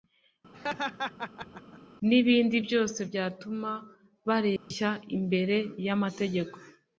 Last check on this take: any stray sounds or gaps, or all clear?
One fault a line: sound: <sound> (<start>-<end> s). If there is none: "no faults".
sound: laugh (0.5-1.8 s)
sound: dropout (4.6-4.7 s)